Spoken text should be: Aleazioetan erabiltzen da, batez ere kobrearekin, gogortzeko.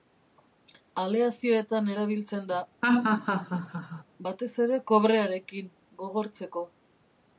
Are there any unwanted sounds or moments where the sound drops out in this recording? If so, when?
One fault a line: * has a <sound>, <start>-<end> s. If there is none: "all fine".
* has a laugh, 2.8-4.0 s